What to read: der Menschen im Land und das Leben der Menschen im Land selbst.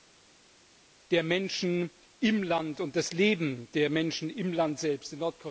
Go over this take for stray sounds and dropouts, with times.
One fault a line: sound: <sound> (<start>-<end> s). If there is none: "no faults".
no faults